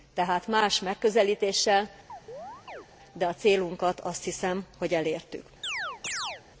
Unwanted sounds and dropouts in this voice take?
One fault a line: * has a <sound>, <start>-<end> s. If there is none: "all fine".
* has a chirp, 2.1-2.9 s
* has a chirp, 5.6-6.4 s